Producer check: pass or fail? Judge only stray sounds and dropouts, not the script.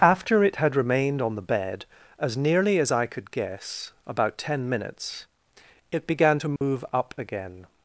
fail